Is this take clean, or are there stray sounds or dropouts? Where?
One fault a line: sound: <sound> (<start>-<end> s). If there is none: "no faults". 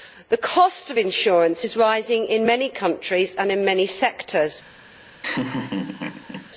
sound: laugh (5.2-6.5 s)